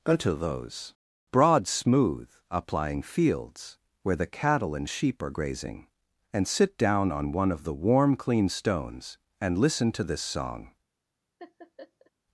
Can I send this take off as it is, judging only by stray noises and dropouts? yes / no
no